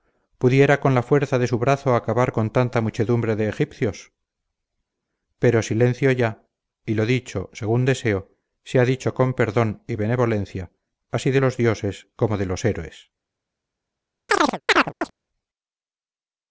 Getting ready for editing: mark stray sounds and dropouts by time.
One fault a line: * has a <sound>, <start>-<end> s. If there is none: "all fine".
* has a chirp, 14.3-15.1 s